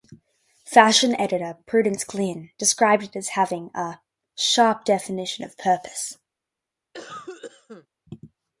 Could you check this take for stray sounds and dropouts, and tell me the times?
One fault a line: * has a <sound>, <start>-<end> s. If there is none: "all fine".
* has a cough, 6.9-7.9 s